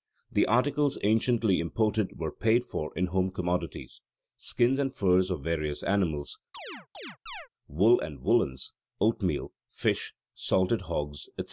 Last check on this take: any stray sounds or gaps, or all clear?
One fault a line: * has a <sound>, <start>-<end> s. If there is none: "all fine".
* has a chirp, 6.5-7.5 s